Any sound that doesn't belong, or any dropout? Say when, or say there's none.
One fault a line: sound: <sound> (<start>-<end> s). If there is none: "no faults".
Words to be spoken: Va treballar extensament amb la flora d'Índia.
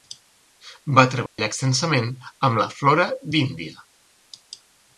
sound: dropout (1.3-1.4 s)